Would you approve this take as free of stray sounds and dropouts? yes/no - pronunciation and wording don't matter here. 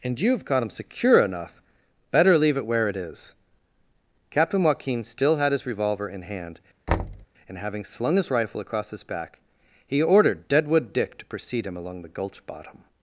no